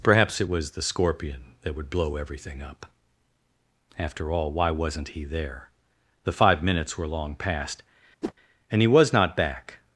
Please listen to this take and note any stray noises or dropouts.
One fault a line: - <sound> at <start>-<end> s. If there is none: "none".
- whoosh at 8.2-8.3 s